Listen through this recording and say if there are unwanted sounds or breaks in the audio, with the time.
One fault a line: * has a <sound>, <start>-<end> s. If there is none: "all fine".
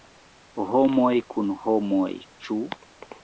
all fine